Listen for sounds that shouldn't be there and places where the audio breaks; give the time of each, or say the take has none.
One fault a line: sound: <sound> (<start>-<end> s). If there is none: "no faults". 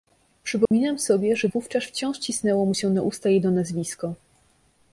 sound: dropout (0.7-0.7 s)